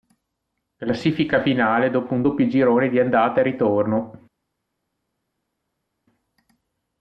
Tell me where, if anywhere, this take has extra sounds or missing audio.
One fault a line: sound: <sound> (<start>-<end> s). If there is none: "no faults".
no faults